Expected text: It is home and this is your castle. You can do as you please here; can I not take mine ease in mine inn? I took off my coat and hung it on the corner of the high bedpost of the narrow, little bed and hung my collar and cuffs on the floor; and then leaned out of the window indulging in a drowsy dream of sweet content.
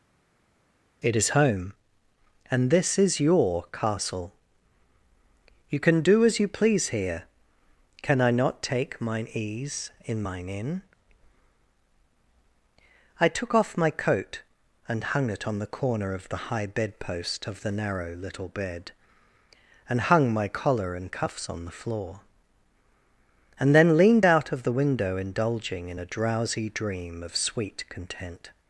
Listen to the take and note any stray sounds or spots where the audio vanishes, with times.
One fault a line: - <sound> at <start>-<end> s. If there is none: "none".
none